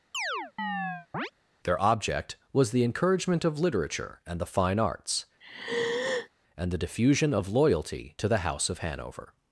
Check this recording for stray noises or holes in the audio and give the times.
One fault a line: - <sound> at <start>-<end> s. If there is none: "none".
- chirp at 0.1-1.3 s
- sigh at 5.4-6.3 s